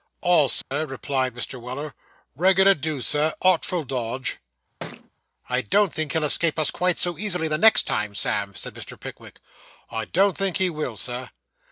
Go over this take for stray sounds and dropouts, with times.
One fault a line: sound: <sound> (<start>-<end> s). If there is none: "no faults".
sound: dropout (0.6-0.7 s)
sound: thud (4.8-5.1 s)